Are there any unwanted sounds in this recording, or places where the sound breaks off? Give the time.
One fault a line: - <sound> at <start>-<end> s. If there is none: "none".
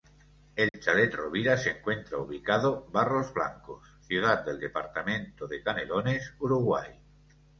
- dropout at 0.7-0.7 s